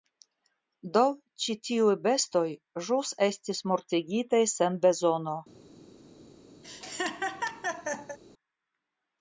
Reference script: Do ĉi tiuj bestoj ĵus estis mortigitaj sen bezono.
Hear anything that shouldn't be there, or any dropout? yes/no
yes